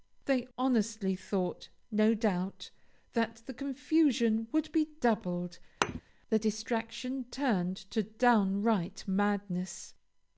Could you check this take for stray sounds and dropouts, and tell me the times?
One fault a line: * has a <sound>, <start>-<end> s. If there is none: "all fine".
* has a thud, 5.8-6.0 s